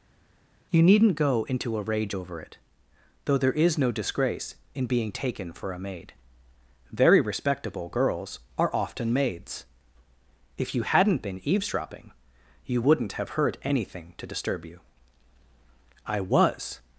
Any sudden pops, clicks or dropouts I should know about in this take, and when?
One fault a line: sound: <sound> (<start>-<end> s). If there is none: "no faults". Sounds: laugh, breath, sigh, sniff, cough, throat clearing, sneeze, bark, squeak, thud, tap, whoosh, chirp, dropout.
no faults